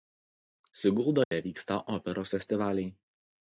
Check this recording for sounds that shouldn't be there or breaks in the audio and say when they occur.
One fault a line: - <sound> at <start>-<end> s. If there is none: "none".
- dropout at 1.2-1.3 s